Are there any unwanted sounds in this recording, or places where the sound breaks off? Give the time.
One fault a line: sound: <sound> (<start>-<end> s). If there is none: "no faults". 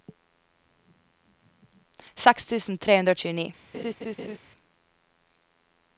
sound: laugh (3.7-4.4 s)